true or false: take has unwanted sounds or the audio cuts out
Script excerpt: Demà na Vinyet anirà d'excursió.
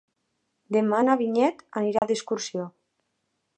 true